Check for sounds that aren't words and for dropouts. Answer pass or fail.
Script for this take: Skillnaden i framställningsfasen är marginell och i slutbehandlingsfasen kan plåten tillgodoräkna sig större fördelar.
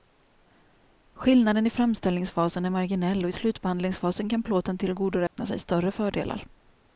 fail